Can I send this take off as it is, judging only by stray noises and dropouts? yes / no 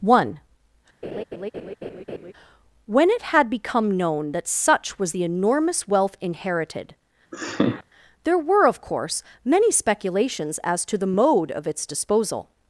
no